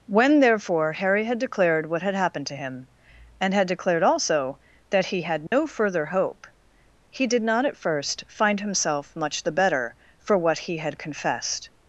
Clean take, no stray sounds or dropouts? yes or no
no